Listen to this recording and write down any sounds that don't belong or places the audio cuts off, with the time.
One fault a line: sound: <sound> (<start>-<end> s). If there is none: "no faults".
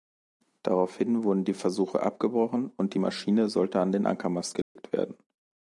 sound: dropout (4.6-4.8 s)